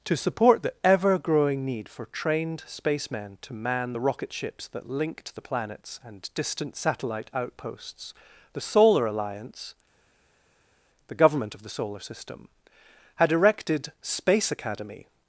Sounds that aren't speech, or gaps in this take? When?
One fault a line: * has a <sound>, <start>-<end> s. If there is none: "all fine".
all fine